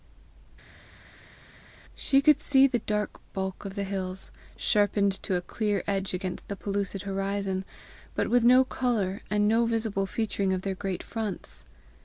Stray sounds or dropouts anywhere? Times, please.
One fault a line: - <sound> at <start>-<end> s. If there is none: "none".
none